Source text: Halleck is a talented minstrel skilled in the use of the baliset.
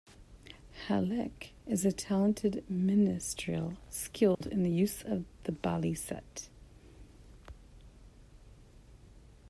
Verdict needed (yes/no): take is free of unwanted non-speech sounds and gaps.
no